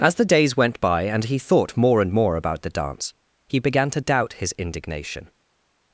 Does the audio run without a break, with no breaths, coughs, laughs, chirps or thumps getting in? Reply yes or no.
yes